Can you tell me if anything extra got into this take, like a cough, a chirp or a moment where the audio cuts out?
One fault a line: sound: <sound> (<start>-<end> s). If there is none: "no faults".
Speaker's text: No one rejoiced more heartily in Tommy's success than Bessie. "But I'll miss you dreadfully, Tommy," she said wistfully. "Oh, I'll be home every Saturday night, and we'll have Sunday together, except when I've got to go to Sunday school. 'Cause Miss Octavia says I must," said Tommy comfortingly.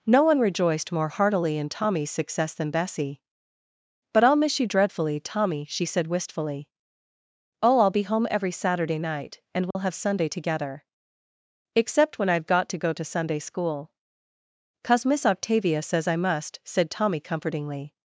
sound: dropout (9.7-9.8 s)